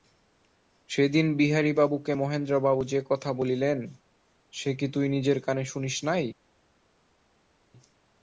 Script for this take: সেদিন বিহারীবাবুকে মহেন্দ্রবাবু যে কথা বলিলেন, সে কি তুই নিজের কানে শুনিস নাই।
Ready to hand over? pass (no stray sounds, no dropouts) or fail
pass